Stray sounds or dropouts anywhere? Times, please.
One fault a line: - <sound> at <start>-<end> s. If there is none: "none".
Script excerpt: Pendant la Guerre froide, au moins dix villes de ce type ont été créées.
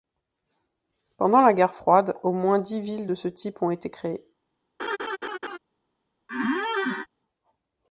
- laugh at 4.8-5.6 s
- squeak at 6.3-7.1 s